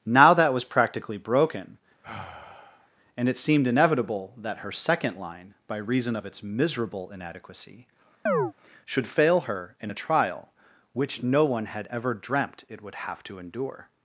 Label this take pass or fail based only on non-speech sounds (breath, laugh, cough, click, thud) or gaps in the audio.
fail